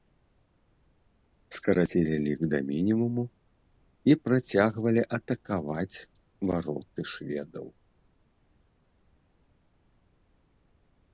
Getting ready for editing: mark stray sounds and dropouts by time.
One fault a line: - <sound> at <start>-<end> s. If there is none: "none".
none